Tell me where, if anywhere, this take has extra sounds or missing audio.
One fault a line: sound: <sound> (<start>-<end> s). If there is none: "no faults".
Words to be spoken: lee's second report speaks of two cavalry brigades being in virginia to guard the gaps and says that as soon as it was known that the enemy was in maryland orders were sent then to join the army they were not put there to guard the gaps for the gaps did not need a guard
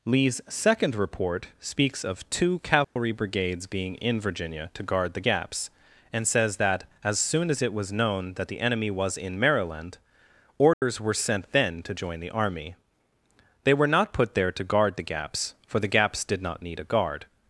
sound: dropout (2.8-3.0 s)
sound: dropout (10.7-10.8 s)